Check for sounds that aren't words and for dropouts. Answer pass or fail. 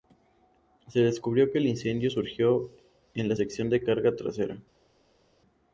pass